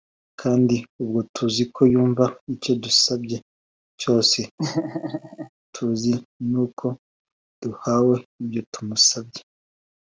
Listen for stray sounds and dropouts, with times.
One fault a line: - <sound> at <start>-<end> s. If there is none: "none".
- laugh at 4.6-5.5 s